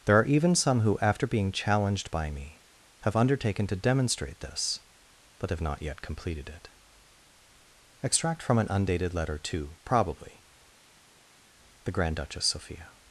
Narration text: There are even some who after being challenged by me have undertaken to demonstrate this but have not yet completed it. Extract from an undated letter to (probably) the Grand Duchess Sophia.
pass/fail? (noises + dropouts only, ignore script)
pass